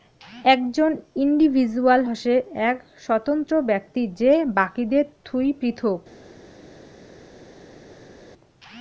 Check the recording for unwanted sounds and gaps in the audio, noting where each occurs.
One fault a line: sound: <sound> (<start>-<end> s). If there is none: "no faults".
no faults